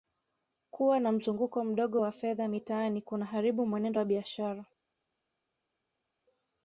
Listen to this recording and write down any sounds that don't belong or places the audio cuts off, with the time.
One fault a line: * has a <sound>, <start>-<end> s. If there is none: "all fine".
all fine